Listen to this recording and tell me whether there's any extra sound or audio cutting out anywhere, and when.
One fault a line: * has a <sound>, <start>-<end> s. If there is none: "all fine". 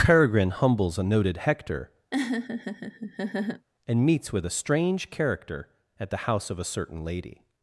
* has a laugh, 2.1-3.7 s